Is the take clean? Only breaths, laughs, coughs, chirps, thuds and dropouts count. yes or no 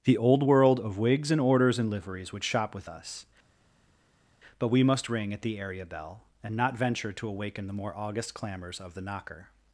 yes